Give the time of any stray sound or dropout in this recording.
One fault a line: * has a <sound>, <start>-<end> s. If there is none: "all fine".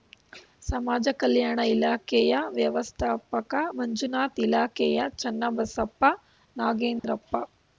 * has a dropout, 7.0-7.0 s